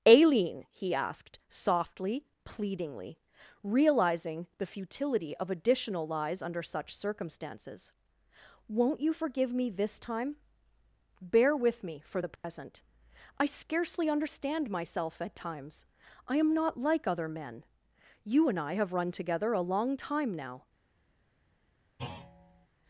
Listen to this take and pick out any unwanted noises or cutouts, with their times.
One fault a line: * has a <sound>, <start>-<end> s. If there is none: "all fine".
* has a dropout, 12.4-12.4 s
* has a thud, 22.0-22.7 s